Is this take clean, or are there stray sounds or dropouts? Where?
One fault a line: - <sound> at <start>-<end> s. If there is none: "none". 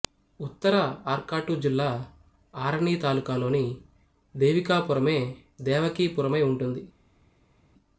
none